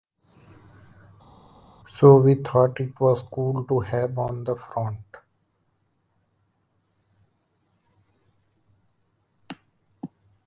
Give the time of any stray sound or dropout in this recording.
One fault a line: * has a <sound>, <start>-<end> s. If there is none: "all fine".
all fine